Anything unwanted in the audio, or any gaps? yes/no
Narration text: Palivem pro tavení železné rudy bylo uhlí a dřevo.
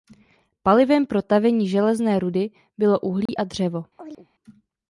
yes